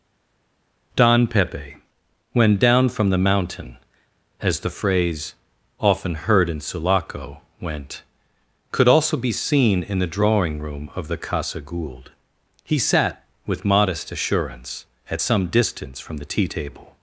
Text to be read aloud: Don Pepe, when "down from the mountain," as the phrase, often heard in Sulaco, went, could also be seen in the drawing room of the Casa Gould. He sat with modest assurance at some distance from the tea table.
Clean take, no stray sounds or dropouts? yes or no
yes